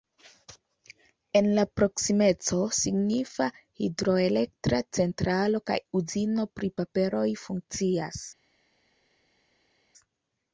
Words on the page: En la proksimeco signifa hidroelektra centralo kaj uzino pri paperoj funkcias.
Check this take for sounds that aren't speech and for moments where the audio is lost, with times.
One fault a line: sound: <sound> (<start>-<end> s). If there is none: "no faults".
no faults